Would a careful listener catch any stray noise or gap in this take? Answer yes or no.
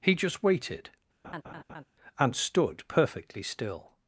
yes